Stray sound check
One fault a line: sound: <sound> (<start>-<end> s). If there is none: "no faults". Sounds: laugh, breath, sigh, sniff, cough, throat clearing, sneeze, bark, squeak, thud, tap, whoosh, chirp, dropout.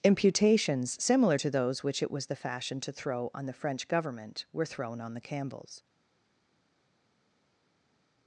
no faults